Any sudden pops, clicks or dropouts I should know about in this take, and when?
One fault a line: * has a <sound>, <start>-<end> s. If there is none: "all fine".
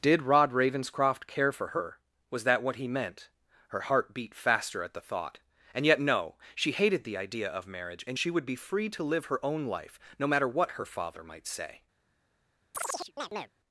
* has a chirp, 12.7-13.5 s